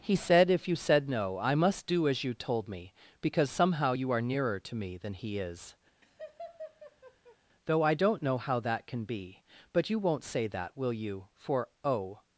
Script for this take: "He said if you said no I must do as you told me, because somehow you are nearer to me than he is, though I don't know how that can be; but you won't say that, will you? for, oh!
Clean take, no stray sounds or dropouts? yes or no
no